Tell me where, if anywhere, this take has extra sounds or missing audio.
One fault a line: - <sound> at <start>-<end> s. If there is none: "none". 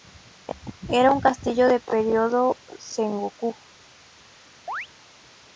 - chirp at 4.7-4.9 s